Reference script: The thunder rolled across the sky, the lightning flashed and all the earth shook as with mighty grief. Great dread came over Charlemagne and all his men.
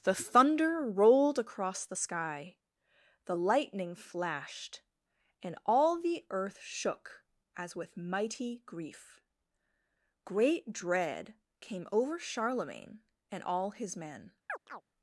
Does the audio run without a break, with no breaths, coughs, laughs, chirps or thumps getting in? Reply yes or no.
no